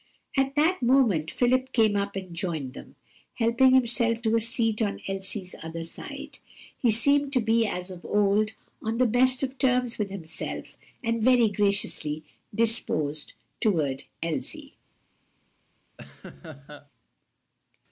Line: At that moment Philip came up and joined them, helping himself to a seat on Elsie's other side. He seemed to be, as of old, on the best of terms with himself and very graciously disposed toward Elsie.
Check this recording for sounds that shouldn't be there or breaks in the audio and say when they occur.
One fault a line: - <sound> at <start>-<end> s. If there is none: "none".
- laugh at 16.0-16.9 s